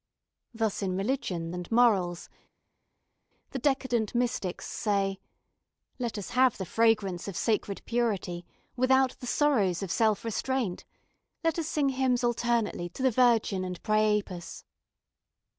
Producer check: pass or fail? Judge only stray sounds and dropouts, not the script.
pass